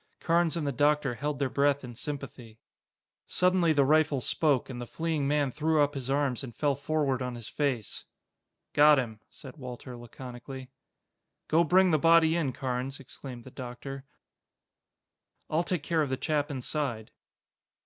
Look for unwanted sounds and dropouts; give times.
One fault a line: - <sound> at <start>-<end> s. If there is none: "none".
none